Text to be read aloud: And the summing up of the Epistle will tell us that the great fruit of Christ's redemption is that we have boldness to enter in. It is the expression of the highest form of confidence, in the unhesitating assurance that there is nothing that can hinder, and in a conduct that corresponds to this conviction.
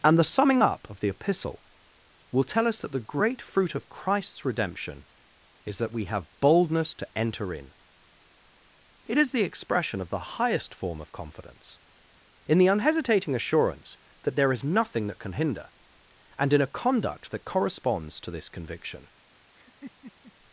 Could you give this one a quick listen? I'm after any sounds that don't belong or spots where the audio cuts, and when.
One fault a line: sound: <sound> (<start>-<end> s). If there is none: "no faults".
sound: laugh (19.5-20.3 s)